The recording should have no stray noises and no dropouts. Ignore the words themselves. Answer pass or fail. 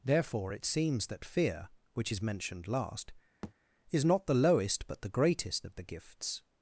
fail